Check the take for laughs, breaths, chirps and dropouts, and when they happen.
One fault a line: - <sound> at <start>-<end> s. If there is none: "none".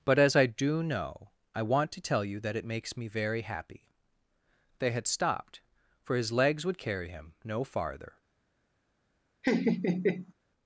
- laugh at 9.4-10.3 s